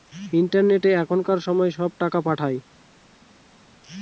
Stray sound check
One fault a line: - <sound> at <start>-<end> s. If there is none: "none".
none